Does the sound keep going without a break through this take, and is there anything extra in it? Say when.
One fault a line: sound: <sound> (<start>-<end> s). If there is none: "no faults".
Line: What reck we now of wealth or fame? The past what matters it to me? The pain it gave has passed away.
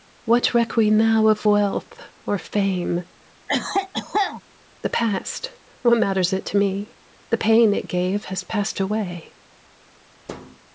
sound: cough (3.5-4.4 s)
sound: thud (10.3-10.6 s)